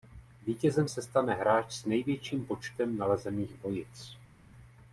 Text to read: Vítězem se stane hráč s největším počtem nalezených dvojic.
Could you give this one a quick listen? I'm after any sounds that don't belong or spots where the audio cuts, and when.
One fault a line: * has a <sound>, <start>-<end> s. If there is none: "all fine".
all fine